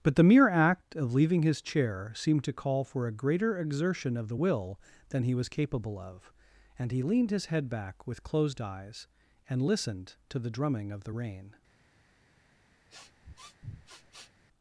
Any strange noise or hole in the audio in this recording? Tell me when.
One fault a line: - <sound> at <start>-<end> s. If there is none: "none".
- sniff at 12.9-14.3 s